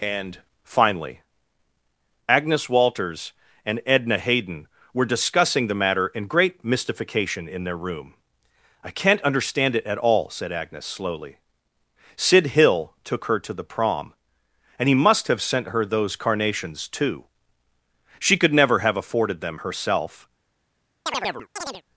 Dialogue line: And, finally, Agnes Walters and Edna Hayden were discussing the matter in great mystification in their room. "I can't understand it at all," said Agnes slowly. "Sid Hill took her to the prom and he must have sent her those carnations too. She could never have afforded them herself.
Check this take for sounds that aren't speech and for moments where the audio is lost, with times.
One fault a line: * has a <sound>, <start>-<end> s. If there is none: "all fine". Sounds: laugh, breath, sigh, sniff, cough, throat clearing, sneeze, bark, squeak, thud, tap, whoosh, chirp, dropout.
* has a chirp, 21.1-21.8 s